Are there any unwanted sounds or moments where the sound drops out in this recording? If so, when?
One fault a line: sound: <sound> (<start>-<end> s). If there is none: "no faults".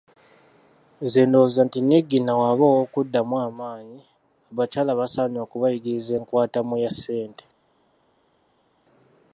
no faults